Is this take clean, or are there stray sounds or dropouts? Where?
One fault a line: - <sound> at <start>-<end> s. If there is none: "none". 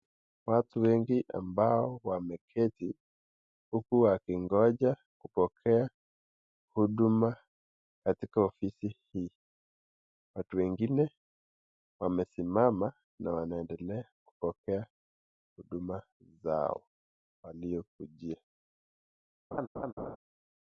- laugh at 19.5-20.2 s